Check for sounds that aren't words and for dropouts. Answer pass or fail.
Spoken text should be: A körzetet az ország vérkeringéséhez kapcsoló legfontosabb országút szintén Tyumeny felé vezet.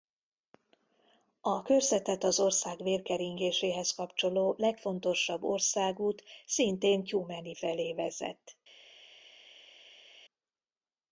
pass